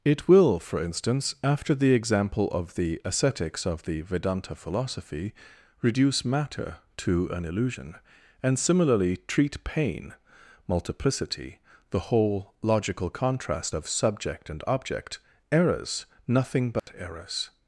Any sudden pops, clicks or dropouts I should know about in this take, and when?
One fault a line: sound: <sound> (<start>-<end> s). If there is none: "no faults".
sound: dropout (16.8-16.9 s)